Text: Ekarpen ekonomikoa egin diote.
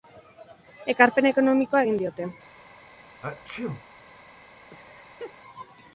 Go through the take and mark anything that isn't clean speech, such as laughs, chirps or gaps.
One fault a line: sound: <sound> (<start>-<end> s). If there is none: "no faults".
sound: sneeze (3.2-3.9 s)
sound: laugh (4.7-5.4 s)